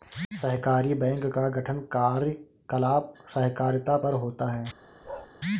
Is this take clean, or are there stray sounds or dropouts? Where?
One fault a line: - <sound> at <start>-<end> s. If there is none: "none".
- bark at 5.0-5.3 s